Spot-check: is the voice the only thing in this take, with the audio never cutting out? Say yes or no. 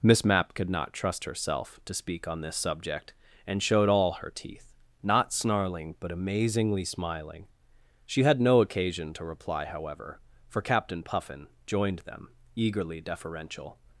yes